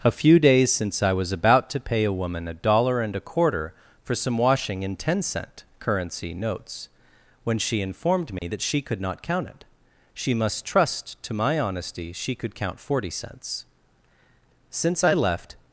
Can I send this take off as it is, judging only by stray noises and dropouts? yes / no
no